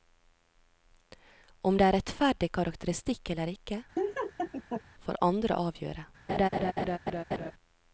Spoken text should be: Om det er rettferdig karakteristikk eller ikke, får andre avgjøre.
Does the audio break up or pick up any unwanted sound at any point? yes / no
yes